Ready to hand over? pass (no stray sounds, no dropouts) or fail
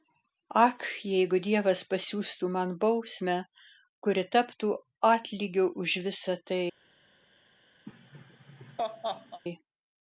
fail